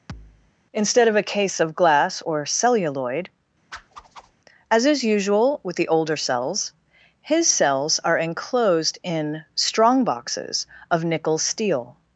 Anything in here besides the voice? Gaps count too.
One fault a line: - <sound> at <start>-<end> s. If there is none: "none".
- thud at 0.1-0.5 s
- whoosh at 3.7-4.4 s